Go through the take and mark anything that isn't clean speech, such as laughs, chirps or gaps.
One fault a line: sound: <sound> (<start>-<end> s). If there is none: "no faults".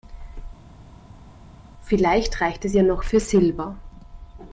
no faults